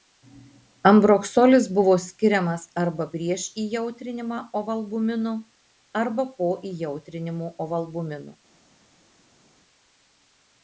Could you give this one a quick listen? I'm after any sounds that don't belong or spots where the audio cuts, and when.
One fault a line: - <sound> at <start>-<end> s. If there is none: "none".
none